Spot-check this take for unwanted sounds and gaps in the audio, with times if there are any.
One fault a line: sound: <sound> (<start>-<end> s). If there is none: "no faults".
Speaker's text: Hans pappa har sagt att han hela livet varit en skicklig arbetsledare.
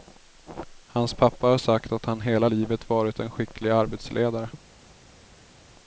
no faults